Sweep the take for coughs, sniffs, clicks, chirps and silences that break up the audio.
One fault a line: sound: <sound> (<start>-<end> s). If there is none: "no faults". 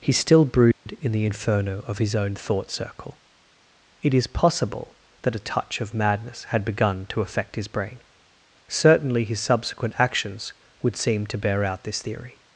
sound: dropout (0.7-0.9 s)